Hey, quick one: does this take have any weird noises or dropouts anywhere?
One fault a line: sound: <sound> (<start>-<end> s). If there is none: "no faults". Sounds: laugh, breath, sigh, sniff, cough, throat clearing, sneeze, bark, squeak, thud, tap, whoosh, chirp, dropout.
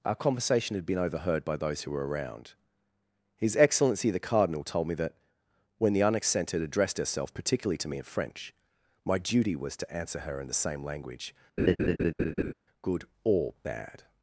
sound: laugh (11.6-12.5 s)